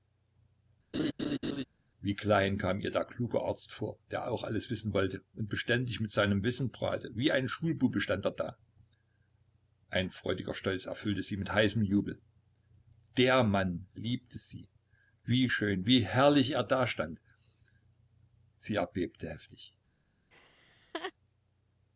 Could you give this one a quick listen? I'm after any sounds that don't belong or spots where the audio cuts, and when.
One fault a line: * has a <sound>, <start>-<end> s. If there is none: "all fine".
* has a laugh, 0.9-1.6 s
* has a laugh, 20.3-21.1 s